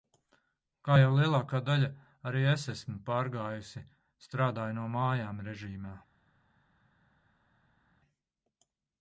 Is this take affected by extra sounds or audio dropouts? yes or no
no